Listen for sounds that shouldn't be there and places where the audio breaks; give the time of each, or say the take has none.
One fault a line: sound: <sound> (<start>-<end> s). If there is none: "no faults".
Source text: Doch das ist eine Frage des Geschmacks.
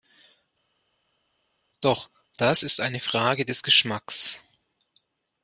no faults